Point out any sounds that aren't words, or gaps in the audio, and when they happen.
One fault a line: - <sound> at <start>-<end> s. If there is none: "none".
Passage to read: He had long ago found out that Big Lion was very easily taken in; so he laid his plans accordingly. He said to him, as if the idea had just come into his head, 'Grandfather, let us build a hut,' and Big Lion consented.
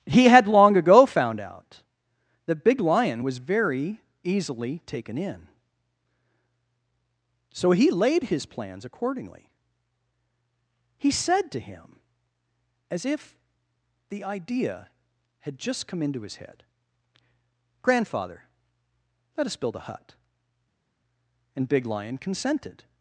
none